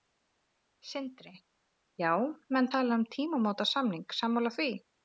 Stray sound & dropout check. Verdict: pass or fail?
pass